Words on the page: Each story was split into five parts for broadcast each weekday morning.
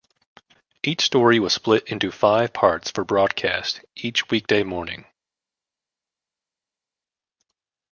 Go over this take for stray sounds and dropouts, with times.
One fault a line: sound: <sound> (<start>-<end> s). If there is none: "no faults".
no faults